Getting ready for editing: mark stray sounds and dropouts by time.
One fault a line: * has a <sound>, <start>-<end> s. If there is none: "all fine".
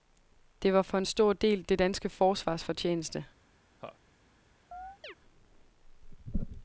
* has a laugh, 3.8-4.0 s
* has a chirp, 4.7-5.1 s